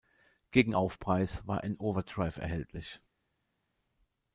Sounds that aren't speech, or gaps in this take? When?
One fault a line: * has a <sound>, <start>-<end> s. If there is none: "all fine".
all fine